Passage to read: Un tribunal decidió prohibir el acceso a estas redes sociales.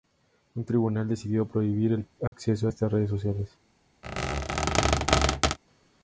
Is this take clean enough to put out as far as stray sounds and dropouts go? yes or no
no